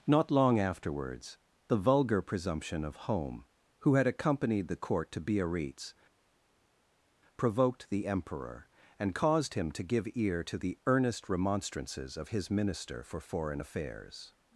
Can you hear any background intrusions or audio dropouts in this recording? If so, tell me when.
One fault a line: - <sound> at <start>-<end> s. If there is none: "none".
none